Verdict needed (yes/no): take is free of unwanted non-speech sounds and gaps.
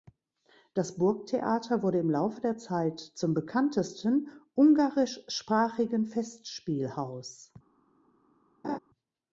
no